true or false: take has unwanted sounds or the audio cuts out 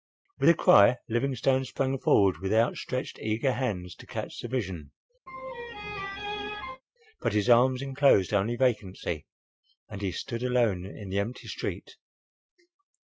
true